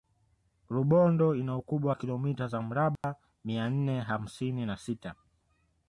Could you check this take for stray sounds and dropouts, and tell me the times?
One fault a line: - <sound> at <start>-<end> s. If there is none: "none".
- dropout at 3.0-3.0 s